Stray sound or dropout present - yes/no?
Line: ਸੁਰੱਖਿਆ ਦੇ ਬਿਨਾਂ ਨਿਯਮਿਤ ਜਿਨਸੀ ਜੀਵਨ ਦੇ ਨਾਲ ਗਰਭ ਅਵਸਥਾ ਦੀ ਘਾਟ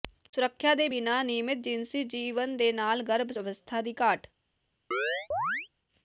yes